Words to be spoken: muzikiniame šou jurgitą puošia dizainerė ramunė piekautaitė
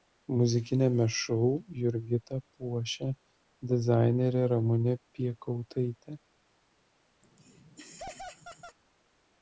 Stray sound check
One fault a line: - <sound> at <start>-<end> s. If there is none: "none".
- laugh at 7.2-8.8 s